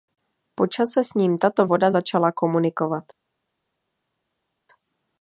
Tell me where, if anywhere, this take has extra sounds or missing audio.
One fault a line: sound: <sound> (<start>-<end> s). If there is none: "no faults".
no faults